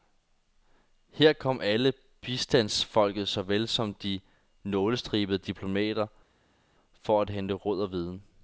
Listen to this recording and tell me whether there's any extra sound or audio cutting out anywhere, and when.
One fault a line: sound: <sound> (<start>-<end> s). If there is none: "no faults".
no faults